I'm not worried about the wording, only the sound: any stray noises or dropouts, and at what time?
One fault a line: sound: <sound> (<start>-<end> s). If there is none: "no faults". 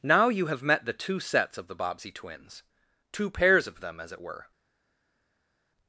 no faults